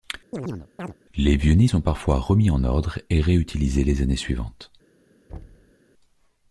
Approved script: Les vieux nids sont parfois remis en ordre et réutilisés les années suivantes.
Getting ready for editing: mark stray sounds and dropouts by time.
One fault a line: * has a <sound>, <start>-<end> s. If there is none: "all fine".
* has a chirp, 0.3-0.9 s
* has a thud, 5.3-5.7 s